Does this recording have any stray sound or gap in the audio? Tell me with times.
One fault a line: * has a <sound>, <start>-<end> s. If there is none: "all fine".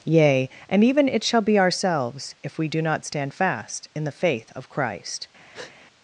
* has a breath, 5.5-5.7 s